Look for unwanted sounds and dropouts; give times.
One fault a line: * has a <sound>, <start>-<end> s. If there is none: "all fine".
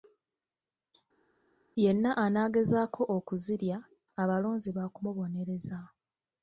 all fine